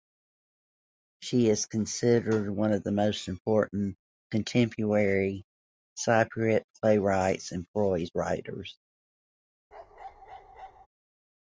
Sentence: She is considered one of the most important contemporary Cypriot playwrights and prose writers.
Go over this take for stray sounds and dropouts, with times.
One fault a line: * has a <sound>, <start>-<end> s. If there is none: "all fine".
* has a bark, 9.7-10.9 s